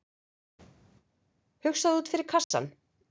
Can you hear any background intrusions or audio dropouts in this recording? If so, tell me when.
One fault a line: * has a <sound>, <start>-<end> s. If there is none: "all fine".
* has a dropout, 2.4-2.5 s